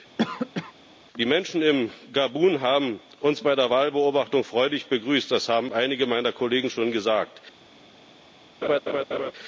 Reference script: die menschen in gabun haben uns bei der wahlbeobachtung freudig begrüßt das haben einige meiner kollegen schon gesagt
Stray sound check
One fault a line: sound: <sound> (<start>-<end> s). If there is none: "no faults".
sound: cough (0.2-0.7 s)
sound: laugh (8.6-9.3 s)